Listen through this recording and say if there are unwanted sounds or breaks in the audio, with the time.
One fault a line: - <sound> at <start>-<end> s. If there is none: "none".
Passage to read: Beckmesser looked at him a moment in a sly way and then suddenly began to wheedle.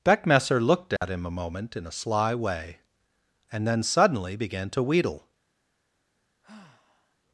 - dropout at 1.0-1.0 s
- sigh at 6.4-7.2 s